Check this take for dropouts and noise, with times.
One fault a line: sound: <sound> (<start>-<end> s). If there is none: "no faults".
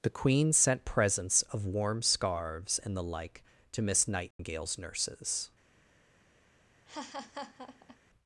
sound: dropout (4.3-4.4 s)
sound: laugh (6.9-8.0 s)